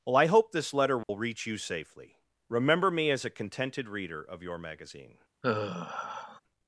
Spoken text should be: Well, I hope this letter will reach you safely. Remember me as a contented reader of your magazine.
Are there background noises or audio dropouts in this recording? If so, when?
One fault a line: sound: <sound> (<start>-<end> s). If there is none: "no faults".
sound: dropout (1.0-1.1 s)
sound: sigh (5.4-6.4 s)